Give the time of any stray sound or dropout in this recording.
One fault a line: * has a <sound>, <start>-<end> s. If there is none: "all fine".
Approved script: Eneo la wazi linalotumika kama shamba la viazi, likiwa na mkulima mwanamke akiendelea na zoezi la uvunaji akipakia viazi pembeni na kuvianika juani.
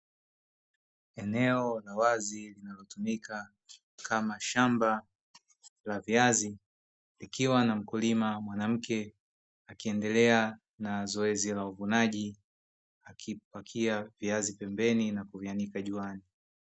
all fine